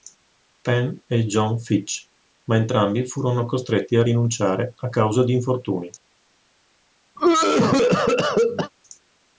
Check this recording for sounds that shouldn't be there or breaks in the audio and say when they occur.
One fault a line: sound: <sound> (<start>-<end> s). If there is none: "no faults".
sound: cough (7.2-8.7 s)